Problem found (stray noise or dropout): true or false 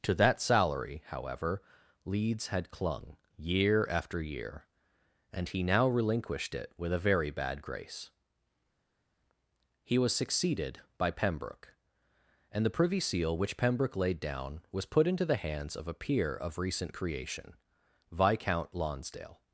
false